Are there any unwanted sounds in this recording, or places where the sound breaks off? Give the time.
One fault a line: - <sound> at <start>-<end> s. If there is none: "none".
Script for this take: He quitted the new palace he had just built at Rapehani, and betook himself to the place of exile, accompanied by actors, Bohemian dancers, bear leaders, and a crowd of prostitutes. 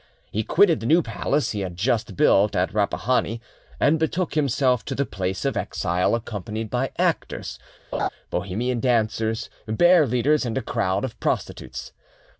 - laugh at 7.9-8.1 s